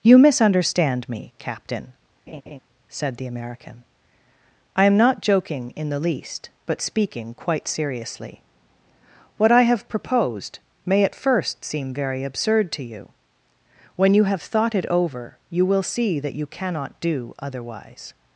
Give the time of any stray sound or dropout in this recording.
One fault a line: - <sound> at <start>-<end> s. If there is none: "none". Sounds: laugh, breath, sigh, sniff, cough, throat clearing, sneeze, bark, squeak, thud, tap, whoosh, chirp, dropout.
- laugh at 2.3-2.6 s